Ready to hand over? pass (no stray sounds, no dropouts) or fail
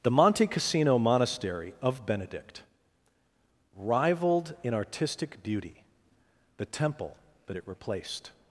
pass